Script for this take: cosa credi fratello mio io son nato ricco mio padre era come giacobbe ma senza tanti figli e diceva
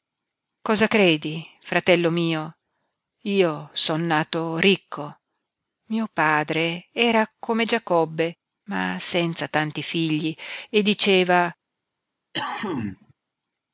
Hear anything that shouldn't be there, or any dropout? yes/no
yes